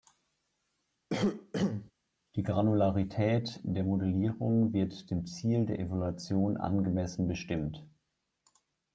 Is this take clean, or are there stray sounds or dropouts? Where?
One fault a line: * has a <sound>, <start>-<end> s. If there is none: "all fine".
* has a cough, 1.1-1.9 s